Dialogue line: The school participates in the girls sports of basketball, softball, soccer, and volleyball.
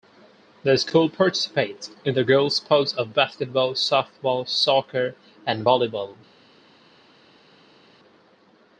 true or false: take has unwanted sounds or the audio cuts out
false